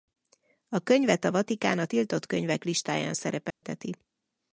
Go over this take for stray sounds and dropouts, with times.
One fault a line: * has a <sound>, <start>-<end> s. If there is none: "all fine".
* has a dropout, 3.5-3.6 s